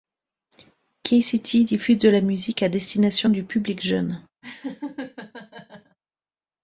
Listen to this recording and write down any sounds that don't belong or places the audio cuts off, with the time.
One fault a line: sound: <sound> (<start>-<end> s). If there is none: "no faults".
sound: laugh (4.4-6.0 s)